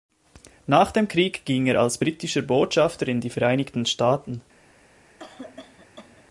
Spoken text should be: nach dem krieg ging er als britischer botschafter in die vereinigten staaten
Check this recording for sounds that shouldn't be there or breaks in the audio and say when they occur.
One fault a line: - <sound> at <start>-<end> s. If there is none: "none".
- cough at 5.2-6.2 s